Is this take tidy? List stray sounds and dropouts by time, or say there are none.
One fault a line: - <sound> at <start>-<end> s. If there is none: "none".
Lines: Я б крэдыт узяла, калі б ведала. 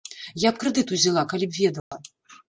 - dropout at 1.8-1.9 s